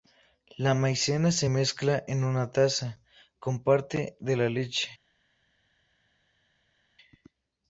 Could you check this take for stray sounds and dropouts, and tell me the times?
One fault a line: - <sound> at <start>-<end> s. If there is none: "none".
none